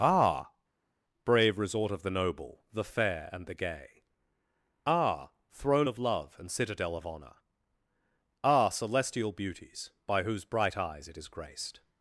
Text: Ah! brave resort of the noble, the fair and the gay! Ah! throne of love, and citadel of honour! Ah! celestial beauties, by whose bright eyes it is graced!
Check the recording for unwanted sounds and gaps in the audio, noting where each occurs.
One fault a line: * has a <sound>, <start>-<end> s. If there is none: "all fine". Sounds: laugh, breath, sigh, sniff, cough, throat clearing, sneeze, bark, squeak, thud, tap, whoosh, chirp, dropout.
all fine